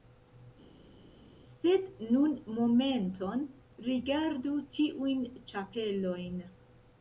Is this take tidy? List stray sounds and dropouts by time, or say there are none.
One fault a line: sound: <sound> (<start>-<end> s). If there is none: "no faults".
no faults